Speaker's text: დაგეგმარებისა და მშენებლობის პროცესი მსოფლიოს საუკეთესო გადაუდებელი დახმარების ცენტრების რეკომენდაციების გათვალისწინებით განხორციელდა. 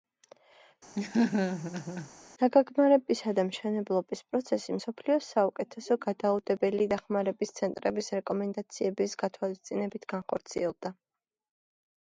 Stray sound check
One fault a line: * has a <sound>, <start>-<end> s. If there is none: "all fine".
* has a laugh, 1.0-2.1 s